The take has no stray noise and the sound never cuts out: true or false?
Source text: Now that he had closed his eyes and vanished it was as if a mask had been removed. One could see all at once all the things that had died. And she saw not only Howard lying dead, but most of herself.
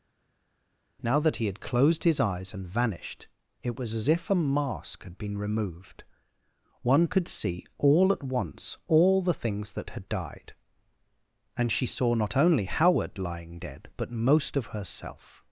true